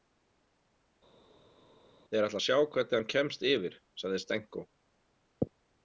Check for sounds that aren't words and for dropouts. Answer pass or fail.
pass